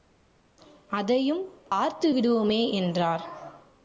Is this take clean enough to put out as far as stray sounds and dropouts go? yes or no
no